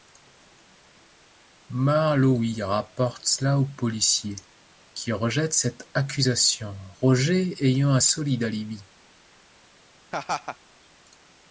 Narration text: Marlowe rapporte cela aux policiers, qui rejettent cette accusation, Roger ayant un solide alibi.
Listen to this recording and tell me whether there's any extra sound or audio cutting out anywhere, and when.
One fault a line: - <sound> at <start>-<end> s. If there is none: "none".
- laugh at 10.1-10.6 s